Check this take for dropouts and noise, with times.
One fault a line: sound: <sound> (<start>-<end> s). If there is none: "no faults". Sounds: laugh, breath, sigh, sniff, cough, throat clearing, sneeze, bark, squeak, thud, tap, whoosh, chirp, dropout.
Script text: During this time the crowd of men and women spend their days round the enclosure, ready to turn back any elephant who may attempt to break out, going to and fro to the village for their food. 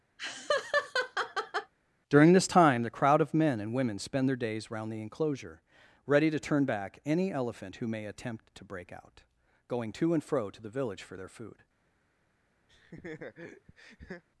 sound: laugh (0.2-1.7 s)
sound: laugh (12.7-14.2 s)